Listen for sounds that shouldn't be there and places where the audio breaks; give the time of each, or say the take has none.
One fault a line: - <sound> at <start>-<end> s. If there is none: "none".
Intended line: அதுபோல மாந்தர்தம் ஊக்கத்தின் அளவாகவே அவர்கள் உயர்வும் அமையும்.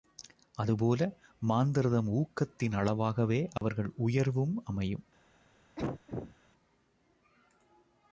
- dropout at 3.6-3.6 s
- cough at 5.8-6.4 s